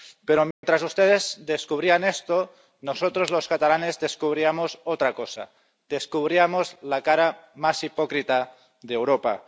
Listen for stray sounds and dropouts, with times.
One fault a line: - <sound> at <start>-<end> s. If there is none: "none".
- dropout at 0.5-0.6 s